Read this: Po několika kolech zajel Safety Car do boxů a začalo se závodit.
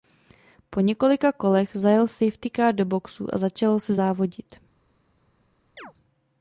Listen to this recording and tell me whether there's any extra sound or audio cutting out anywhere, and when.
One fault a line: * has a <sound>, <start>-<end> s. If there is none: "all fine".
* has a chirp, 5.8-5.9 s